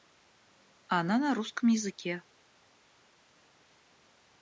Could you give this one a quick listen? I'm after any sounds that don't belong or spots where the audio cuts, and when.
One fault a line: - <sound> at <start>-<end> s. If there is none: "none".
none